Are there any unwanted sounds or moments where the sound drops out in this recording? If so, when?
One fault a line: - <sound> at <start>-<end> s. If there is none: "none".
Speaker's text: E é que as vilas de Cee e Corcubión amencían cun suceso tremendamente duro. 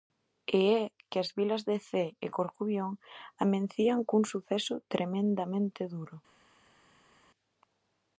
none